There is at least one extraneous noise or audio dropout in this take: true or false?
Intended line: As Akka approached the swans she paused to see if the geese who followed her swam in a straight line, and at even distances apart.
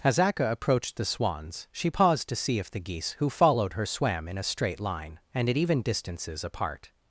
false